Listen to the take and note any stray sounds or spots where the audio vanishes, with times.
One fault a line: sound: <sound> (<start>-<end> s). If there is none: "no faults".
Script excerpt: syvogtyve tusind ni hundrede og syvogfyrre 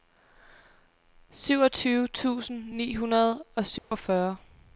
sound: dropout (3.8-3.9 s)